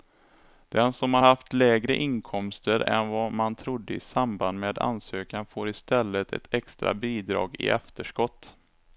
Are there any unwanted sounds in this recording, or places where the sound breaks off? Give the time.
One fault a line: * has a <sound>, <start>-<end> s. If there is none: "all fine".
all fine